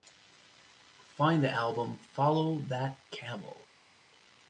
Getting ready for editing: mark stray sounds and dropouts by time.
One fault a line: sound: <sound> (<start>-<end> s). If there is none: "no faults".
no faults